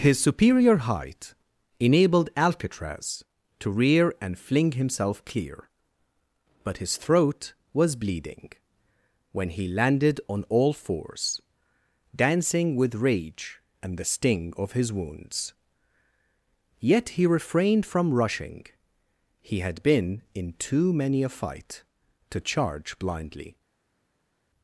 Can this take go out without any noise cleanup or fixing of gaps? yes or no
yes